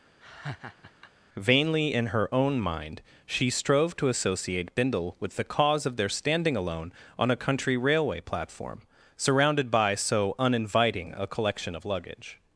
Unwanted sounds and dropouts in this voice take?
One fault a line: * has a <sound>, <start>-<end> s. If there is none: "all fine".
* has a laugh, 0.2-1.1 s